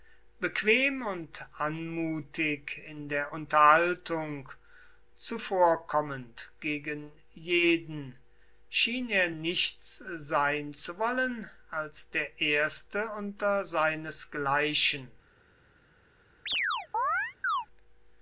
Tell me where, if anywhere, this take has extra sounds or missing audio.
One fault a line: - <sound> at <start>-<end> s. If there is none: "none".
- chirp at 16.5-17.7 s